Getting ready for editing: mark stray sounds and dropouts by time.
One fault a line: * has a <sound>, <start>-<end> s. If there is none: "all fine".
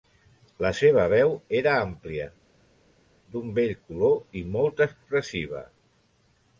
all fine